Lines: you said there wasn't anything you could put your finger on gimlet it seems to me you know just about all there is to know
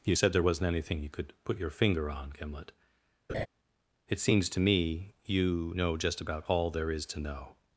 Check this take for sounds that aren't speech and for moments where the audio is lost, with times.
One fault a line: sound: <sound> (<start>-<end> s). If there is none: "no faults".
sound: laugh (3.3-3.5 s)